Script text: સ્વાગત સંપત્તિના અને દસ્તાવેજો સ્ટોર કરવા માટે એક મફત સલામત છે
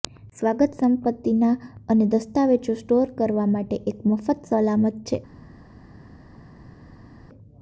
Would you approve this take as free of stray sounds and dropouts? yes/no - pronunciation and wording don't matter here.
yes